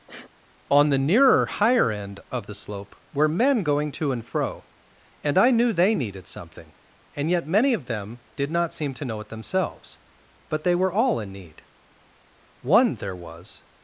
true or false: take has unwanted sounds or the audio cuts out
true